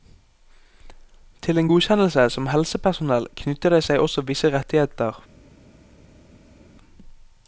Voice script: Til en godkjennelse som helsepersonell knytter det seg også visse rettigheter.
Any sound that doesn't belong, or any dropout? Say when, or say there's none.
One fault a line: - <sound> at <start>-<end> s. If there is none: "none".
none